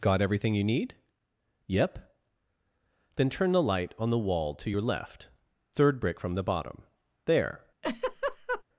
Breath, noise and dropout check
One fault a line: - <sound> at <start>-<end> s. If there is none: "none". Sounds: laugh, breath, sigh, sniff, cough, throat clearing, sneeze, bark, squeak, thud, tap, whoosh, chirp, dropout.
- laugh at 7.8-8.6 s